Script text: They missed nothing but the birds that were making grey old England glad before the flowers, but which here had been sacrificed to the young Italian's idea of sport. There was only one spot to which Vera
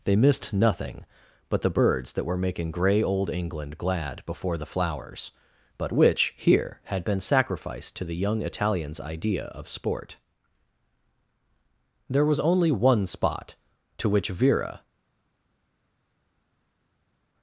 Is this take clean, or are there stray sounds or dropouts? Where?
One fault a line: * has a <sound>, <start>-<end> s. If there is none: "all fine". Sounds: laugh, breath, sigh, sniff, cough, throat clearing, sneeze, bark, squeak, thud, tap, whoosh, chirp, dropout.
all fine